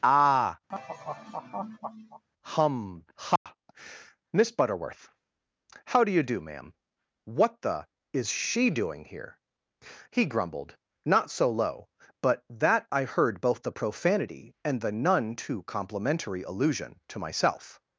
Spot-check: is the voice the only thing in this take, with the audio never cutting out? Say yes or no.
no